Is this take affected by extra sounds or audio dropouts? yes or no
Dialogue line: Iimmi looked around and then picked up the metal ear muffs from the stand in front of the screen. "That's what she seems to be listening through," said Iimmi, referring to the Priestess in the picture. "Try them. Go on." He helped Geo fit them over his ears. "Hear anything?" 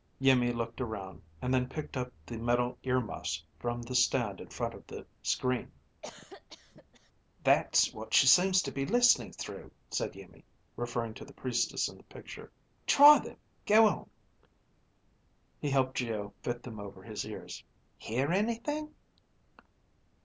yes